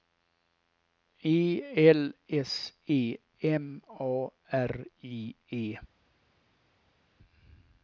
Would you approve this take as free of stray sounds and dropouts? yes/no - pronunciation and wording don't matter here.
yes